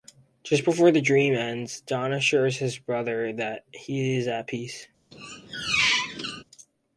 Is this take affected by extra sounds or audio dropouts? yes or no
yes